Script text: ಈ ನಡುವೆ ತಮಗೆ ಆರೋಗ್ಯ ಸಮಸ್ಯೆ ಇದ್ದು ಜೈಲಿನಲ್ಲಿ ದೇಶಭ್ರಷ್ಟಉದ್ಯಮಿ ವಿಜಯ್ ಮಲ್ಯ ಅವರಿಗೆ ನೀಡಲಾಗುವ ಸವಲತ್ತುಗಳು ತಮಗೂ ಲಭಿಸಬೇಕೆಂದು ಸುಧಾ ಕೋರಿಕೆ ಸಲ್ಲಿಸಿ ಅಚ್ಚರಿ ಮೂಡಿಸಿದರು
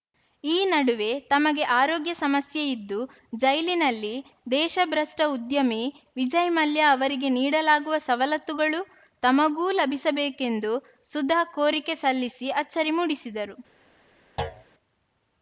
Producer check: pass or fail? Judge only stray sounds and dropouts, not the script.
fail